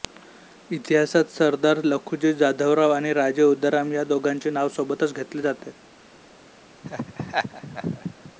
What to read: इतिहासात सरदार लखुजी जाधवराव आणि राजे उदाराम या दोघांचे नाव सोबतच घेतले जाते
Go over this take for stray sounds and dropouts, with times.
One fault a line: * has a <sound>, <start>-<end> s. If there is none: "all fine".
* has a laugh, 6.8-8.3 s